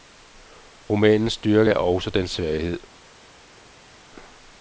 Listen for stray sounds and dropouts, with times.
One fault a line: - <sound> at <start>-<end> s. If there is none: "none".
none